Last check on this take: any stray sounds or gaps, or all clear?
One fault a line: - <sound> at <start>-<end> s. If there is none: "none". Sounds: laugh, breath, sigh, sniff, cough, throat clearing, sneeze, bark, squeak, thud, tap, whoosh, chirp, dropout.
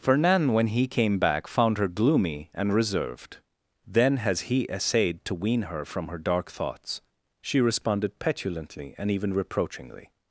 none